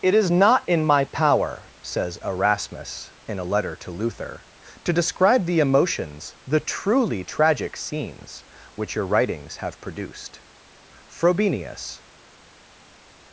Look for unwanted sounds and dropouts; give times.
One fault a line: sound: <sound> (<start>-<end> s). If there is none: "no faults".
no faults